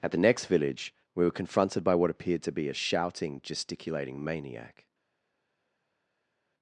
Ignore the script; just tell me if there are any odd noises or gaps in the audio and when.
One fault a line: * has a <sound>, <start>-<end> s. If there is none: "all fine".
all fine